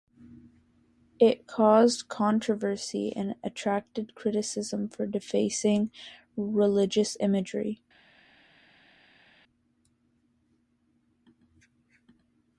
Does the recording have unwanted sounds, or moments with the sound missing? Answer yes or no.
no